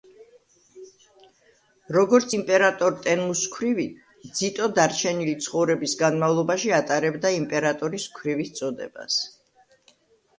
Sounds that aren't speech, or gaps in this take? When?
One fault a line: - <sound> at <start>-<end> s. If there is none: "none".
none